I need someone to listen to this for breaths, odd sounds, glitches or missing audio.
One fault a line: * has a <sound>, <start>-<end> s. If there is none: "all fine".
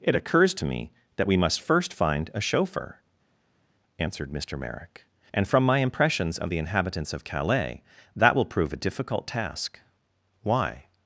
all fine